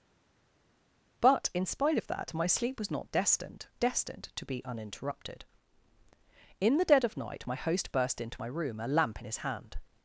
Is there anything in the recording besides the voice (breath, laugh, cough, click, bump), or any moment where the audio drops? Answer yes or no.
no